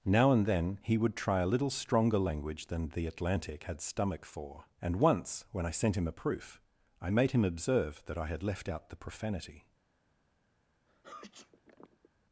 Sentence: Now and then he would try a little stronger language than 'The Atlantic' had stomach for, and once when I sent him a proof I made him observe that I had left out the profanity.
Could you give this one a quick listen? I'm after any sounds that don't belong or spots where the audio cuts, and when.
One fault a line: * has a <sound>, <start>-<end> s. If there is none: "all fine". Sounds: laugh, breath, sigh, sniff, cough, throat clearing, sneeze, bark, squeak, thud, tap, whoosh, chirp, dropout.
* has a sneeze, 10.9-12.1 s